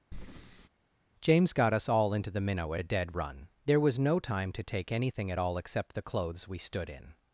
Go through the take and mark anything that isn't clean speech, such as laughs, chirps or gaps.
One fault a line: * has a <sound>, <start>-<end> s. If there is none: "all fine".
* has a breath, 0.1-0.7 s